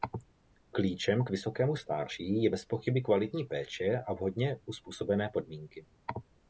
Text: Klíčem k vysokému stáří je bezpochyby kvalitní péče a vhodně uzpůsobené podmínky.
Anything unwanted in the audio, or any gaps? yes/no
no